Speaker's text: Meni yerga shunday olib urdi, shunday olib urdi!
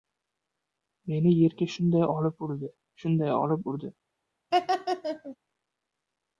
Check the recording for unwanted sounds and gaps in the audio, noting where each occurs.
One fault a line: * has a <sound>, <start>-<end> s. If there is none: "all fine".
* has a laugh, 4.5-5.4 s